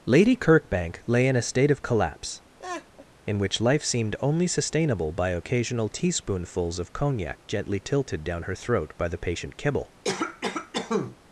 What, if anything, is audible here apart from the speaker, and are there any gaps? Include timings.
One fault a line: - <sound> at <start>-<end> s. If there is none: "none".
- laugh at 2.6-3.1 s
- cough at 10.0-11.2 s